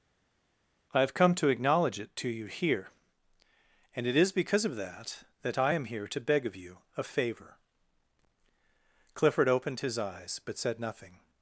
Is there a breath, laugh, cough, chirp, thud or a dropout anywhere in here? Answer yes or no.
no